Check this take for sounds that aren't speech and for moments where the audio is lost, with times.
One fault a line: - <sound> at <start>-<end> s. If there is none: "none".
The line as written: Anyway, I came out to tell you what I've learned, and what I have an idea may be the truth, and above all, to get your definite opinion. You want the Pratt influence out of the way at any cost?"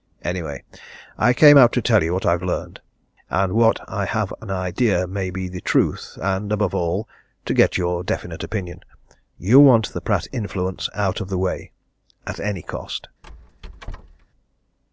- squeak at 13.2-14.3 s